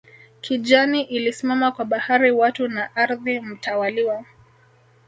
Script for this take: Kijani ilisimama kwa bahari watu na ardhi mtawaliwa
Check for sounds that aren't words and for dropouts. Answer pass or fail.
pass